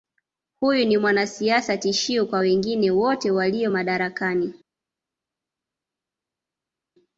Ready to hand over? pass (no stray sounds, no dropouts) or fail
pass